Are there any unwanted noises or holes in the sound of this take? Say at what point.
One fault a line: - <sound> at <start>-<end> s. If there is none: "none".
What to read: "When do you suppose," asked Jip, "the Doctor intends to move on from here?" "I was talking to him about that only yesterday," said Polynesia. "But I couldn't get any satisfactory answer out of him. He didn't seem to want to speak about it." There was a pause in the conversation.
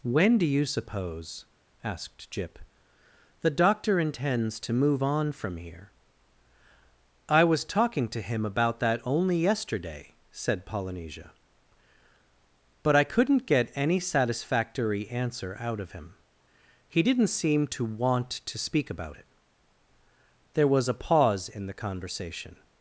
none